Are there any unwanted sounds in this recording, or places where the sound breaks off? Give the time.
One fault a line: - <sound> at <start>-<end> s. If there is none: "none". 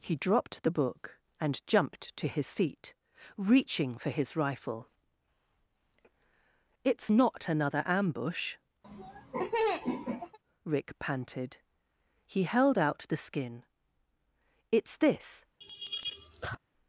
- laugh at 8.8-10.4 s
- laugh at 15.6-16.6 s